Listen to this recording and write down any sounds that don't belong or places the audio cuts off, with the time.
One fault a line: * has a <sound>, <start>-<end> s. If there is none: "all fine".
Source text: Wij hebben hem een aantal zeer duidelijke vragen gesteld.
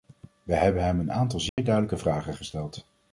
* has a dropout, 1.5-1.6 s